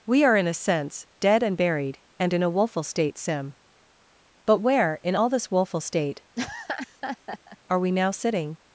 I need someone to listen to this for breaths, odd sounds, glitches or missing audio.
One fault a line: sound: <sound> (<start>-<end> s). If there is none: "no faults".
sound: laugh (6.4-7.6 s)